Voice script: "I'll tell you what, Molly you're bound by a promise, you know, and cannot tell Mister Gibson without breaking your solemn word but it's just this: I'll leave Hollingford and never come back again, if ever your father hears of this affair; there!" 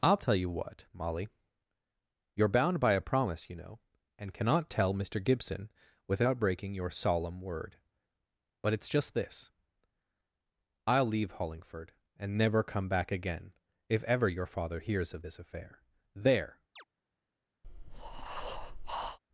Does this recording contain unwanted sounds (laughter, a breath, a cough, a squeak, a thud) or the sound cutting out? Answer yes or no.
yes